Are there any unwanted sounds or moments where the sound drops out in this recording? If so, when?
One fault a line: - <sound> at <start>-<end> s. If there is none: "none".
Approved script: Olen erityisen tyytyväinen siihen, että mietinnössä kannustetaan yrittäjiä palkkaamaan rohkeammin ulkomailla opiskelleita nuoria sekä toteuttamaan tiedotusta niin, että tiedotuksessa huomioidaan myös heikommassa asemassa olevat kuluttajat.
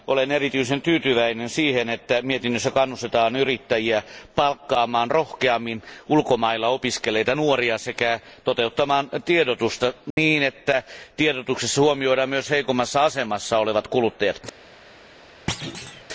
- dropout at 10.1-10.2 s
- thud at 15.5-16.0 s